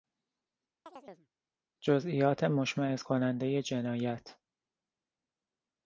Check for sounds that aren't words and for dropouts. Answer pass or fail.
fail